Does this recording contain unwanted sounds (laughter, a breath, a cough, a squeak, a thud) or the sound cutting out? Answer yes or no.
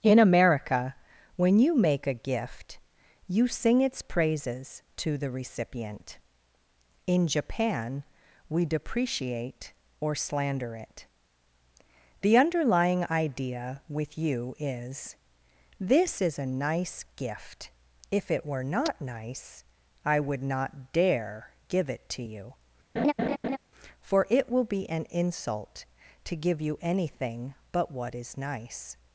yes